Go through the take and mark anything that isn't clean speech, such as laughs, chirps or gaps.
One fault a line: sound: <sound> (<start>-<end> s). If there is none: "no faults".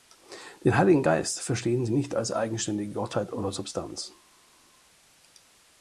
no faults